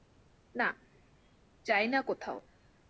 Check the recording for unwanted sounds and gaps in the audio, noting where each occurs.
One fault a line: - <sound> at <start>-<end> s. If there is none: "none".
none